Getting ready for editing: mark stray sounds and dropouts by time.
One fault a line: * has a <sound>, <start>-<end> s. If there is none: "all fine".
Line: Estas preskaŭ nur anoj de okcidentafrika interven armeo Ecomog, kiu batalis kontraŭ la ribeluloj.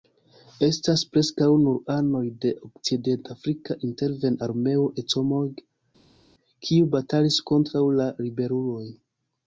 all fine